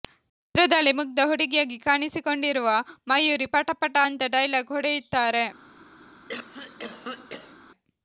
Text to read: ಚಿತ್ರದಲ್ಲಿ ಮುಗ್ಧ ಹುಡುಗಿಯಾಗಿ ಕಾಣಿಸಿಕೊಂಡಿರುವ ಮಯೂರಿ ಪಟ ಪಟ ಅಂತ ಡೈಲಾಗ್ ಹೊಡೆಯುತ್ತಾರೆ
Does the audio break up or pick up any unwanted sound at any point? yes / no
yes